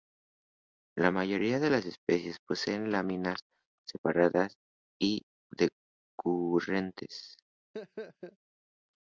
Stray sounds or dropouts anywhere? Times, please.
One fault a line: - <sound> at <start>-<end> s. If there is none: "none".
- laugh at 7.7-8.4 s